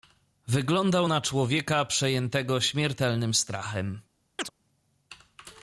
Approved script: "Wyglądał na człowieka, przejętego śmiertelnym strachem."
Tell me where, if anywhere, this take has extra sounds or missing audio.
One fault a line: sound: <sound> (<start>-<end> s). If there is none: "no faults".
sound: chirp (4.4-4.5 s)